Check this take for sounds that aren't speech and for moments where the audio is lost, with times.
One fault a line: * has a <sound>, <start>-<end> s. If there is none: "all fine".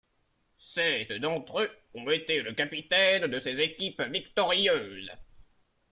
all fine